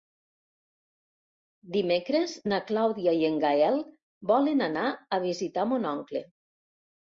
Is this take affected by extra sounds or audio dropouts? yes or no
no